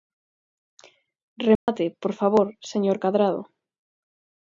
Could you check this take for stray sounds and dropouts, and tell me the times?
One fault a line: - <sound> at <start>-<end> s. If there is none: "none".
- dropout at 1.6-1.7 s